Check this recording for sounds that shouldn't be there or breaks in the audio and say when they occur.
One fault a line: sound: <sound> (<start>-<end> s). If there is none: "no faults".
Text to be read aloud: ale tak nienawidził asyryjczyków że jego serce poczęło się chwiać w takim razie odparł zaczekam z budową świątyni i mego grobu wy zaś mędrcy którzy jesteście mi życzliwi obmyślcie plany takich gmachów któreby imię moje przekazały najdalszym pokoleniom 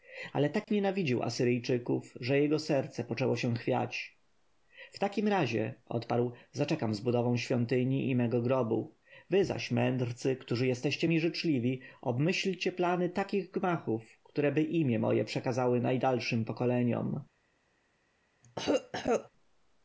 sound: dropout (0.6-0.7 s)
sound: cough (18.4-19.3 s)